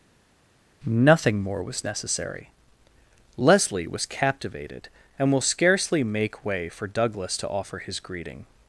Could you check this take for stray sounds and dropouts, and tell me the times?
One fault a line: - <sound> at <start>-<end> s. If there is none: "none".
none